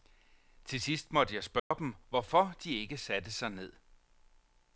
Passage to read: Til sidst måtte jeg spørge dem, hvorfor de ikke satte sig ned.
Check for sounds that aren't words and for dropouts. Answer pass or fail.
fail